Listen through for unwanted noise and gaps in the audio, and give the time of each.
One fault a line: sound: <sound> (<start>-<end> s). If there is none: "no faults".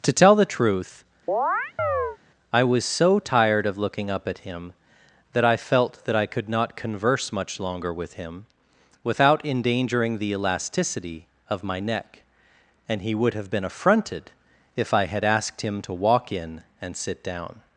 sound: chirp (1.3-2.2 s)